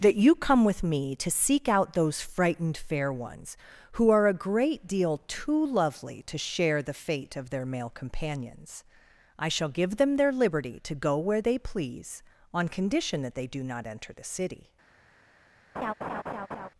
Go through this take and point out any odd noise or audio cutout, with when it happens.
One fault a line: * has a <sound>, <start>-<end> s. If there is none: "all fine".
* has a laugh, 15.7-16.7 s